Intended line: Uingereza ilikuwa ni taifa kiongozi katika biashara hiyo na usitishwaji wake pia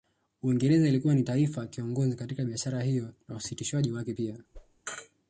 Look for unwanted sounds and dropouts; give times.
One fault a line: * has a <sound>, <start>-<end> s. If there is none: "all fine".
* has a whoosh, 4.5-4.8 s